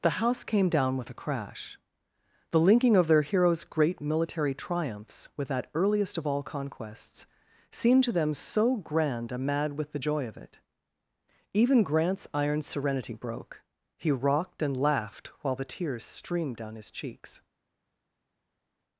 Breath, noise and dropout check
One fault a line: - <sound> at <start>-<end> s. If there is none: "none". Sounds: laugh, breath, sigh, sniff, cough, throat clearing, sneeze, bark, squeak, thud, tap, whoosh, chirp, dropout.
none